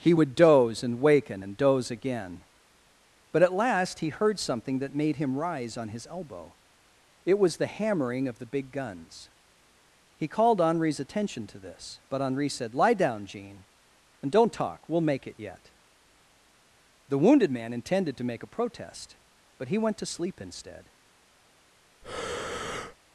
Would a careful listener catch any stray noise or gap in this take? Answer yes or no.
yes